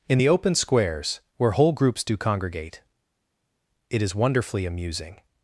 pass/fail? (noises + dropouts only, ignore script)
pass